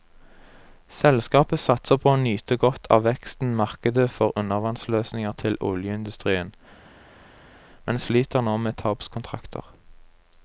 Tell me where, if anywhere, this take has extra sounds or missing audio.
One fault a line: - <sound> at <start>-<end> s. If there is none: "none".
none